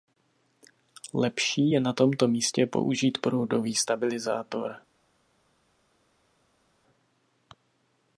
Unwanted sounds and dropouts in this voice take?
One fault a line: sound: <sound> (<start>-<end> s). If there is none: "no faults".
no faults